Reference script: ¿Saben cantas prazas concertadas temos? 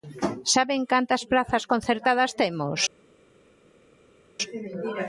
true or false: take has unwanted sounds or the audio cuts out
false